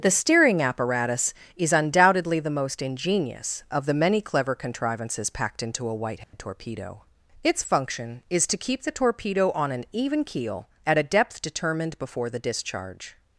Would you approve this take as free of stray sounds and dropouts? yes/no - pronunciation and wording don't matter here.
no